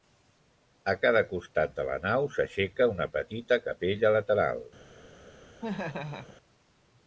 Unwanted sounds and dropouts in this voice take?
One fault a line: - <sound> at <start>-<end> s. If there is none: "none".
- laugh at 5.6-6.4 s